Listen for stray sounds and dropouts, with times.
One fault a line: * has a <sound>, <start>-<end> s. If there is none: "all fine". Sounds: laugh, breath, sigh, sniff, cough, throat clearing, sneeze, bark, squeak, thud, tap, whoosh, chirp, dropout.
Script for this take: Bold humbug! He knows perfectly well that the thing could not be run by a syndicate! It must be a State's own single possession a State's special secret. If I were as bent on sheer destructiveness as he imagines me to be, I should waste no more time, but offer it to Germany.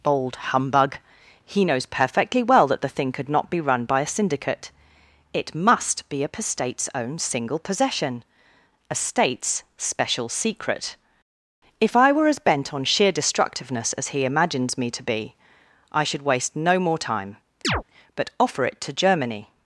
* has a chirp, 17.6-17.8 s